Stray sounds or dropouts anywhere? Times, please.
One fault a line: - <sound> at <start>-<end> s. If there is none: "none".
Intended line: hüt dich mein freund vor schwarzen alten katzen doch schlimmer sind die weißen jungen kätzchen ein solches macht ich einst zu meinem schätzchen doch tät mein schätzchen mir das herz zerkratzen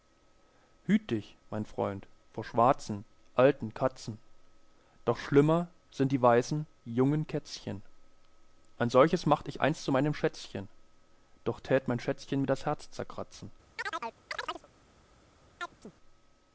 - chirp at 13.8-14.7 s
- chirp at 15.6-15.9 s